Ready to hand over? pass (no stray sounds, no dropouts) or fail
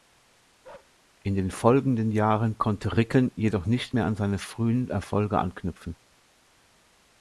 fail